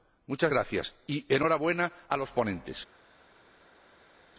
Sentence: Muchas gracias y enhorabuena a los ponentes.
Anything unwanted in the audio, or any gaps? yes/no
no